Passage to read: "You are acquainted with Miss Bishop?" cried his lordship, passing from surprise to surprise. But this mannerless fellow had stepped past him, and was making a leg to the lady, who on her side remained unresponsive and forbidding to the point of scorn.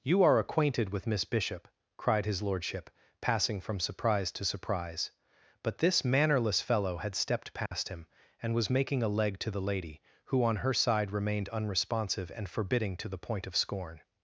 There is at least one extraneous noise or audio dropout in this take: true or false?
true